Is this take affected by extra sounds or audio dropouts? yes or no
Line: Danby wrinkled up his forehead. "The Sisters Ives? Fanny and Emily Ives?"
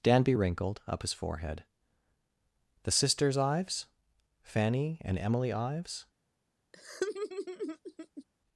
yes